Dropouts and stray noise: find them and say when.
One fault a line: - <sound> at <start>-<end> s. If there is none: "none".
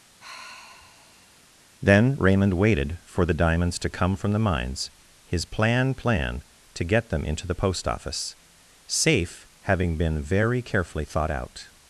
- sigh at 0.2-1.4 s